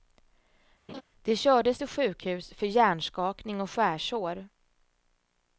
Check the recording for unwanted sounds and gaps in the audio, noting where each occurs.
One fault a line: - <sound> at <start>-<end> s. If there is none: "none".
- laugh at 0.9-1.0 s